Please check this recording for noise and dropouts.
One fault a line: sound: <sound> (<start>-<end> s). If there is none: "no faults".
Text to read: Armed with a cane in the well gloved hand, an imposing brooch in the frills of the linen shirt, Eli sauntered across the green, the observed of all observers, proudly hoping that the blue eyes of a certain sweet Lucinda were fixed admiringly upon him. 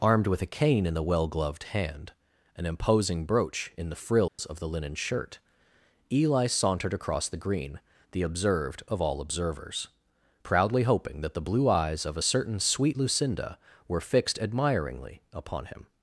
sound: dropout (4.3-4.4 s)